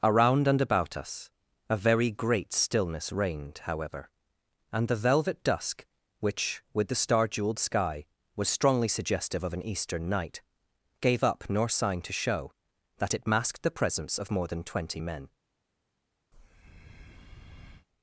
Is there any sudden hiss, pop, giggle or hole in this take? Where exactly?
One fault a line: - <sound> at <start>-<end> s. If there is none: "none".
- breath at 16.3-17.9 s